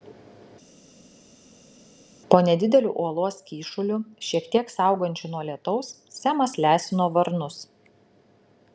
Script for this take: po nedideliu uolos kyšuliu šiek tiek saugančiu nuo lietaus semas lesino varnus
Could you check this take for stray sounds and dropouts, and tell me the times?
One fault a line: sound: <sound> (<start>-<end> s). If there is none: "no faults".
no faults